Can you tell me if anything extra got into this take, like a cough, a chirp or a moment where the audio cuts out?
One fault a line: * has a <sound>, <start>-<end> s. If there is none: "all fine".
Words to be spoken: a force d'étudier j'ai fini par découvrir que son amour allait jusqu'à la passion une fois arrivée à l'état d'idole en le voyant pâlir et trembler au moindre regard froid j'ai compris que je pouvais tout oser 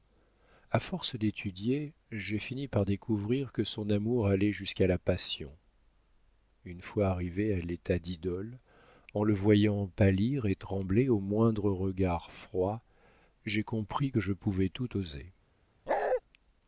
* has a bark, 15.9-16.2 s